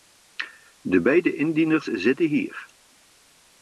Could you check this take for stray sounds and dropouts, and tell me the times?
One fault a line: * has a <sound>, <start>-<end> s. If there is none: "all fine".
all fine